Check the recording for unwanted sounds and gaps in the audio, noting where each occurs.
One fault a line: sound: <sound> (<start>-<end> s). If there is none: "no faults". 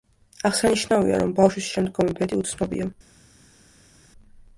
no faults